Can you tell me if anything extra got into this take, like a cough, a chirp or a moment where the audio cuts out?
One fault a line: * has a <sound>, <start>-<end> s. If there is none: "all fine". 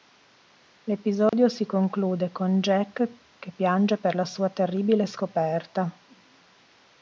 * has a dropout, 1.3-1.3 s